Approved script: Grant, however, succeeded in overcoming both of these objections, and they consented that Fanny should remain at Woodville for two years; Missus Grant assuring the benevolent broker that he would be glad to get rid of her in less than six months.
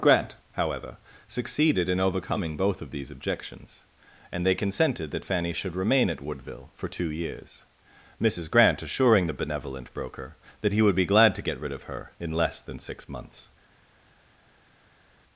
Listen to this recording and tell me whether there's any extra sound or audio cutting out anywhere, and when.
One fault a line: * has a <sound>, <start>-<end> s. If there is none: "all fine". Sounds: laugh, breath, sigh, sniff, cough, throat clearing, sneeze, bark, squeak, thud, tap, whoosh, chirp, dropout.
all fine